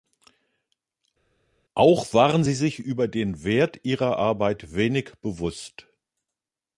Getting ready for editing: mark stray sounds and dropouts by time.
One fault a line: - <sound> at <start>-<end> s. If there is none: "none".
none